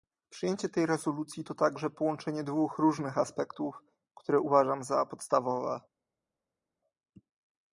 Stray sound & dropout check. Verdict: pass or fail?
pass